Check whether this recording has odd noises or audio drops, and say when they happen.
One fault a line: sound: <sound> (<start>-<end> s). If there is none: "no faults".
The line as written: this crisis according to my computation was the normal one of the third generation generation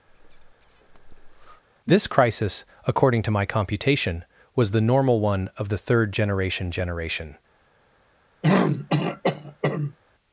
sound: breath (0.1-1.6 s)
sound: throat clearing (8.4-10.0 s)